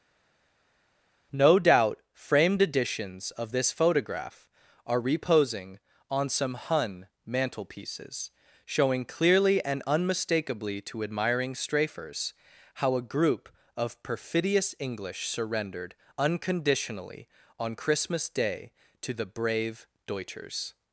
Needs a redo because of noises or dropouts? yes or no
no